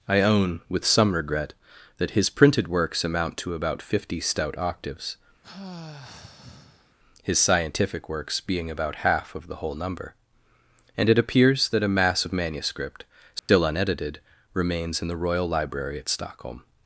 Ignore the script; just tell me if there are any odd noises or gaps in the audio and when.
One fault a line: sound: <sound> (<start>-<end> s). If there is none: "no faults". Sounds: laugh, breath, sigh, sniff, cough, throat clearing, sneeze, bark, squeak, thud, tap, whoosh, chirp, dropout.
sound: sigh (5.4-6.9 s)
sound: dropout (13.4-13.5 s)